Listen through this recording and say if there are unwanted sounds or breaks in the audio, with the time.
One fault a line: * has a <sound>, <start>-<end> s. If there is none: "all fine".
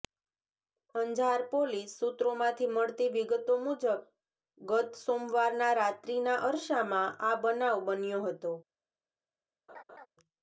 * has a laugh, 9.7-10.1 s